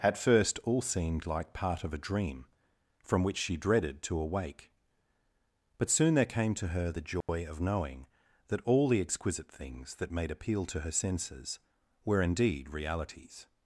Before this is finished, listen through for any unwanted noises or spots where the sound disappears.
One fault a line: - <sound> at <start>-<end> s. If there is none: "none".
- dropout at 7.2-7.3 s